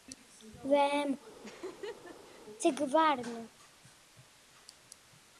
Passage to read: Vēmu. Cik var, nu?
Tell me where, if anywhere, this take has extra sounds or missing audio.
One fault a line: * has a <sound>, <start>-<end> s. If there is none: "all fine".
* has a laugh, 1.4-2.4 s